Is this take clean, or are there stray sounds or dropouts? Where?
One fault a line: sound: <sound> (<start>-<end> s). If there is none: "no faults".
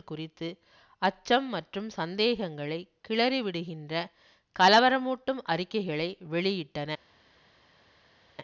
no faults